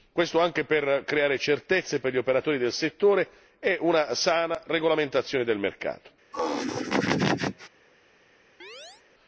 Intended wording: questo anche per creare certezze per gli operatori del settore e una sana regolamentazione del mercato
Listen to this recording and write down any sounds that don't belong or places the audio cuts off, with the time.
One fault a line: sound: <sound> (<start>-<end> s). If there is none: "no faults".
sound: laugh (6.3-7.7 s)
sound: chirp (8.6-9.0 s)